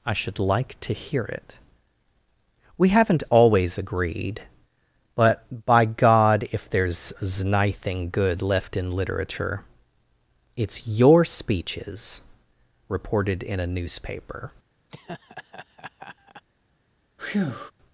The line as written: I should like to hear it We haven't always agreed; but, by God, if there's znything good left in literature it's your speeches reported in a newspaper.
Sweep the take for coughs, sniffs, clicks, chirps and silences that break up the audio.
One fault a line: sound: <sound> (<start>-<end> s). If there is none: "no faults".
sound: laugh (14.9-16.4 s)
sound: breath (17.2-17.7 s)